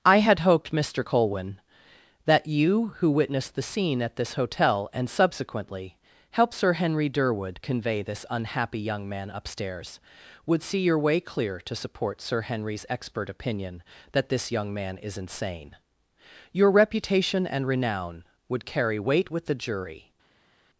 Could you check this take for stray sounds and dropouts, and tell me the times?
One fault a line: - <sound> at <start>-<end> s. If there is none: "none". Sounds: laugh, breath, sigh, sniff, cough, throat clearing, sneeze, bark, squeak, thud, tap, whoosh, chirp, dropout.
none